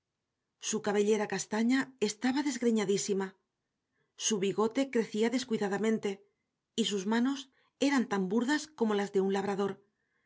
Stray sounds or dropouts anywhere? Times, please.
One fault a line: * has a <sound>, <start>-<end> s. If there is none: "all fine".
all fine